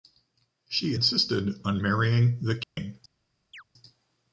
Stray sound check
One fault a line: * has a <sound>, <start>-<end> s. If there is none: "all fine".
* has a dropout, 2.6-2.8 s
* has a chirp, 3.5-3.6 s